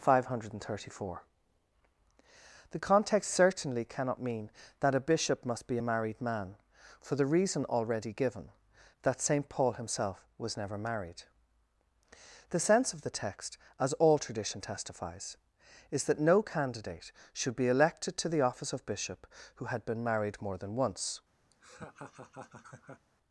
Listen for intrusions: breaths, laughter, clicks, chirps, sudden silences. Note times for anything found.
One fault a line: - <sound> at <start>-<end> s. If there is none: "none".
- laugh at 21.5-23.1 s